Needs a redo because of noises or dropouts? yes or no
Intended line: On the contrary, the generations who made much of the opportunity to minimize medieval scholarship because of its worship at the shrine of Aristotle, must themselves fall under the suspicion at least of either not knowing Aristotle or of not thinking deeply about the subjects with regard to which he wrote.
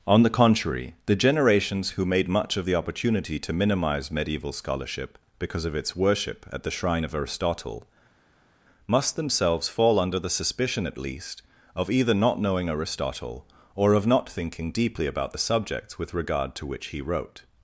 no